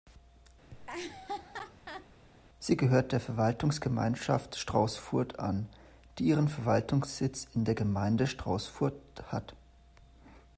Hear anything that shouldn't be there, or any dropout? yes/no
yes